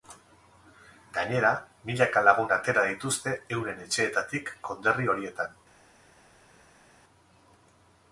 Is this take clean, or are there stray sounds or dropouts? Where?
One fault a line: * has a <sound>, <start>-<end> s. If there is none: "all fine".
all fine